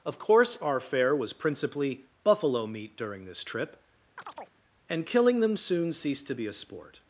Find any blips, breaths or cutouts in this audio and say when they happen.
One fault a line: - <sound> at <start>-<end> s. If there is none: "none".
- chirp at 4.2-4.6 s